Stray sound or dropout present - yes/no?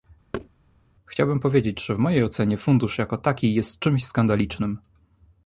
yes